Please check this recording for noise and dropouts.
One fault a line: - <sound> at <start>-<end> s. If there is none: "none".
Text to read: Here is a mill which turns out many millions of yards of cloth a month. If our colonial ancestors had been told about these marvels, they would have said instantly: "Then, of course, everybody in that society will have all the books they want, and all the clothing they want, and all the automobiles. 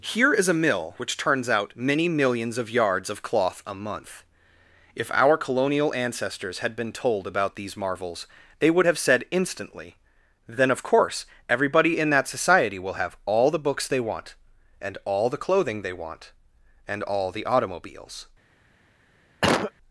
- cough at 19.4-19.7 s